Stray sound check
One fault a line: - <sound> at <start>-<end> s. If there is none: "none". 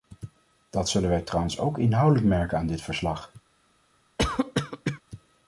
- cough at 4.2-5.0 s